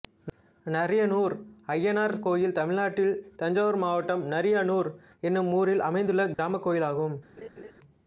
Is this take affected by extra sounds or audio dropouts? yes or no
yes